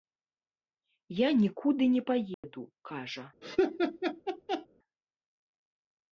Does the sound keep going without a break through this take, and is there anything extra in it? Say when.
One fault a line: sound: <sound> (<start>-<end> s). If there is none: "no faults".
sound: dropout (2.3-2.4 s)
sound: laugh (3.4-4.7 s)